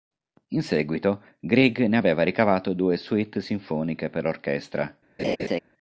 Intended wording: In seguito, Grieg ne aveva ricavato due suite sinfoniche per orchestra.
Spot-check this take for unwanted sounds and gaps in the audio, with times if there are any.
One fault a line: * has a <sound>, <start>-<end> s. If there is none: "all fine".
* has a laugh, 5.2-5.6 s